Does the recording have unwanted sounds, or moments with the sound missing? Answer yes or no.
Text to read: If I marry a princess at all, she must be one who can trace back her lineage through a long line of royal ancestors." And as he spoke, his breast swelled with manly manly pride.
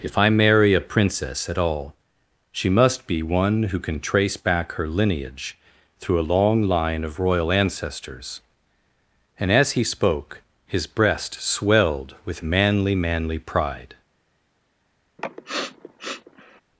yes